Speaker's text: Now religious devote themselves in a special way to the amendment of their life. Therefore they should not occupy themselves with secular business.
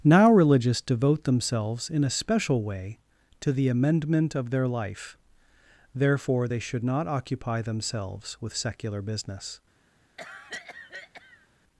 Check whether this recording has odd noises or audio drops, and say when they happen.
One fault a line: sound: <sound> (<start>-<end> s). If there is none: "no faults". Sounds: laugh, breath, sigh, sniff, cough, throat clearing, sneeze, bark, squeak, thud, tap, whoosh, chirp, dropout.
sound: cough (10.2-11.5 s)